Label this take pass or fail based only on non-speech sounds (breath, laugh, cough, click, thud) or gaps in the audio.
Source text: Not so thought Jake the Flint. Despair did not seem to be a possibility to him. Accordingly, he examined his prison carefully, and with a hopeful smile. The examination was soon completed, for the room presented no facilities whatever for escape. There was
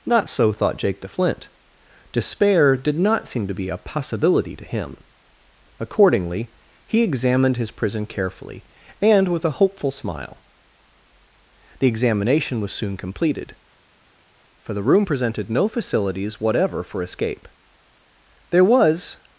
pass